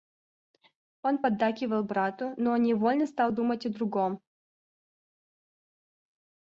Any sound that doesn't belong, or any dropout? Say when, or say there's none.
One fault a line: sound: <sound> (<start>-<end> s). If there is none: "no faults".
no faults